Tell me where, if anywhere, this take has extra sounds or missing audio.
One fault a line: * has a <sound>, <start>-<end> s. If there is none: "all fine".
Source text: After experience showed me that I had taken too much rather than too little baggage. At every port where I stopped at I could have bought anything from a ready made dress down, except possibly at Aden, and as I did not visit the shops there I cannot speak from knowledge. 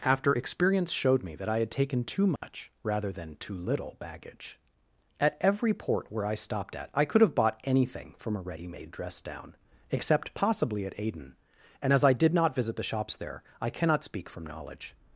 * has a dropout, 2.4-2.4 s